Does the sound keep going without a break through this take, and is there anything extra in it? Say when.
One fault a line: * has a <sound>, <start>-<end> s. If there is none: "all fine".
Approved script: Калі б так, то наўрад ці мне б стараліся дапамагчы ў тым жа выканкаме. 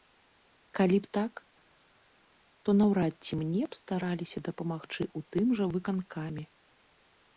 all fine